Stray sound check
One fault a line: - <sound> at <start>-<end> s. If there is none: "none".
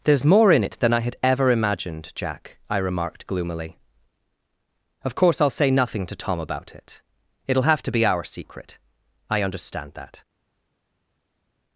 none